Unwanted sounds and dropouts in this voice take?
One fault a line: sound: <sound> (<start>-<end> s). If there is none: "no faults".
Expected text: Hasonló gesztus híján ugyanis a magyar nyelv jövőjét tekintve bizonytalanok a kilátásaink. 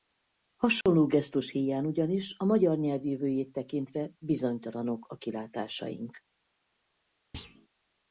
sound: dropout (0.8-0.9 s)
sound: thud (7.3-7.7 s)